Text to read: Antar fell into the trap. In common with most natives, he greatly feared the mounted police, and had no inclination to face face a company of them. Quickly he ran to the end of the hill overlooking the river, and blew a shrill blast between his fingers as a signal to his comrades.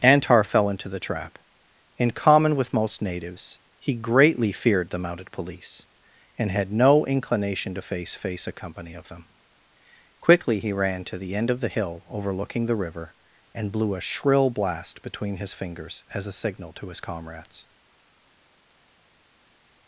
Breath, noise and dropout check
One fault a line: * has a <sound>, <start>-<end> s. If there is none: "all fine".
all fine